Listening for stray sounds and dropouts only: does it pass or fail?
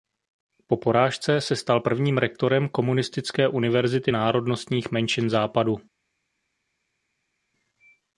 pass